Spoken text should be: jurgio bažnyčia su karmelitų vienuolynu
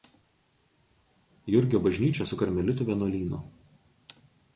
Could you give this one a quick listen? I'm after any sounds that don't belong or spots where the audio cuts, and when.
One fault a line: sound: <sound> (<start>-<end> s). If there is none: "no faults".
no faults